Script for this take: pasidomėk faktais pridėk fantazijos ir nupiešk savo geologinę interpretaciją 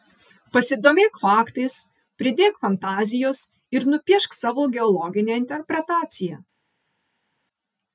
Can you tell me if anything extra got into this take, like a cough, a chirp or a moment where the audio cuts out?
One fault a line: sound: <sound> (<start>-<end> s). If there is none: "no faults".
no faults